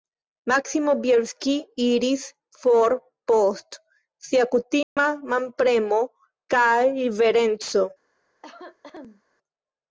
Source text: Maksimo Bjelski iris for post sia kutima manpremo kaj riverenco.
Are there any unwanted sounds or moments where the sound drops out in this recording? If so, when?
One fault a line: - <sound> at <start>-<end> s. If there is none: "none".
- dropout at 4.8-5.0 s
- cough at 8.4-9.2 s